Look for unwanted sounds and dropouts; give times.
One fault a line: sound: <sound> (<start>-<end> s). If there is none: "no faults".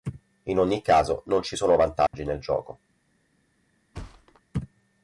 sound: dropout (2.1-2.1 s)
sound: thud (3.9-4.4 s)